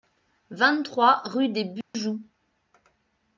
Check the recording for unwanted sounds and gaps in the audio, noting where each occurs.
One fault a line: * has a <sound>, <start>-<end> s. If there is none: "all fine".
* has a dropout, 1.8-1.9 s